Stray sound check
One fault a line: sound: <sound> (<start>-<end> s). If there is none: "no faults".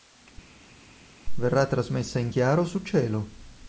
no faults